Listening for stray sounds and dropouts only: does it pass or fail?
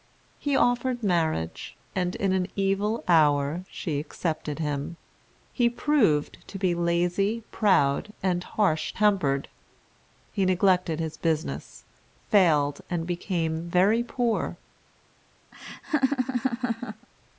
fail